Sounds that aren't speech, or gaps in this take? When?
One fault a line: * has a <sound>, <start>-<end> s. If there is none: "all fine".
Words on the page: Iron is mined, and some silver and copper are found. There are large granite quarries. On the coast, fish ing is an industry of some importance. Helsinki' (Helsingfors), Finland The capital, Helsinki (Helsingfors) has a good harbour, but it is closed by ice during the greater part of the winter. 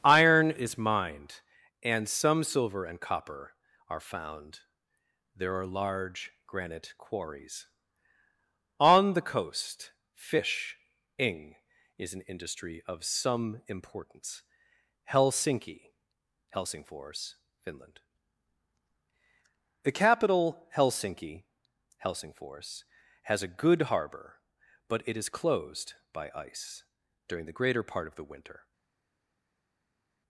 all fine